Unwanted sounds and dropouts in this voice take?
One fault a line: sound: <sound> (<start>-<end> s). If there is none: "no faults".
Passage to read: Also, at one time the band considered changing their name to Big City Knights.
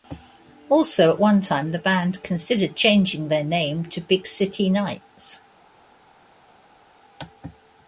no faults